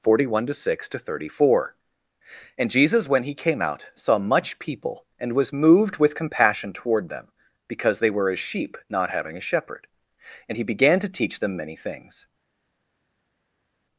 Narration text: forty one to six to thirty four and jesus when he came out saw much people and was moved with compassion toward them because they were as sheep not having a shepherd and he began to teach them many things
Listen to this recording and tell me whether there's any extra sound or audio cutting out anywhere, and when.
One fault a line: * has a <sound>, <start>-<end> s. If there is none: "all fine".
all fine